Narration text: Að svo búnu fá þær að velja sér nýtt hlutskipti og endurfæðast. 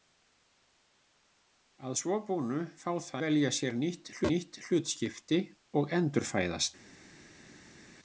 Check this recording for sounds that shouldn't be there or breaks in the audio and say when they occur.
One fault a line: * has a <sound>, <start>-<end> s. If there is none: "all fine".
all fine